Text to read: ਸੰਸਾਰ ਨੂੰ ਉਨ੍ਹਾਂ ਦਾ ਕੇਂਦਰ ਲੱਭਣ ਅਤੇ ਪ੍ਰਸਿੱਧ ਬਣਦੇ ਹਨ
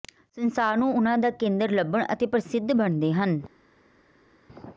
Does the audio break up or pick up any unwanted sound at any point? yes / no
no